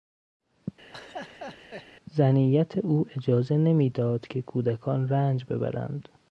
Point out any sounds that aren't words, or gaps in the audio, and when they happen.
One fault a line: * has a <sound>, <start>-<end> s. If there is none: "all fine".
* has a laugh, 0.9-1.9 s